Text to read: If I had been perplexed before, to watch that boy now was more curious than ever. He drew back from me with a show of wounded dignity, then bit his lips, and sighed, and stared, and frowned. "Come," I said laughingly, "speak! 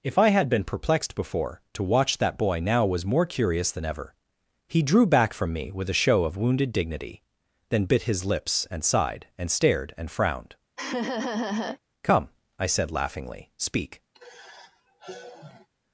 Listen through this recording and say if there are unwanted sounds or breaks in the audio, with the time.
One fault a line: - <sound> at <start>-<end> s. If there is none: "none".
- laugh at 10.8-11.8 s
- sigh at 14.1-15.7 s